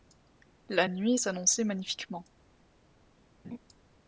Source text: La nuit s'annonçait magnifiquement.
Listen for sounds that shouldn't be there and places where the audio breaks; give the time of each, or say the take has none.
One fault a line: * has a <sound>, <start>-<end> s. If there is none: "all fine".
* has a laugh, 3.4-3.6 s